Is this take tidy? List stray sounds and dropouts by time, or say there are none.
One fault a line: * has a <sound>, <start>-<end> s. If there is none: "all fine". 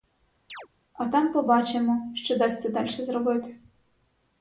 * has a chirp, 0.5-0.7 s